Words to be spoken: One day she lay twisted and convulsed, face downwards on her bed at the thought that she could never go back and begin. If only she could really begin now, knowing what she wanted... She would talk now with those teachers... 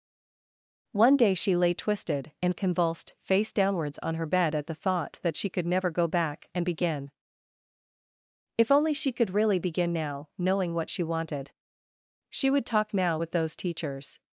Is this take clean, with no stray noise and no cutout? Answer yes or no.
yes